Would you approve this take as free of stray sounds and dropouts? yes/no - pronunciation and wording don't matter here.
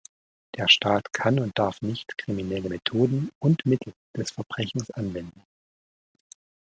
yes